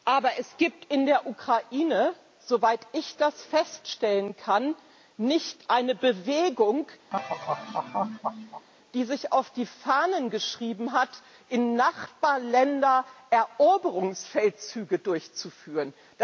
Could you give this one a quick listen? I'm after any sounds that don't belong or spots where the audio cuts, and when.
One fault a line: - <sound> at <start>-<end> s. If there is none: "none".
- laugh at 7.1-8.7 s